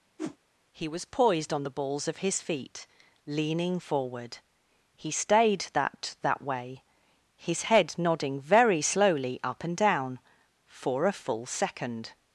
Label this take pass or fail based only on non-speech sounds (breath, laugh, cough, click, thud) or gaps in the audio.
fail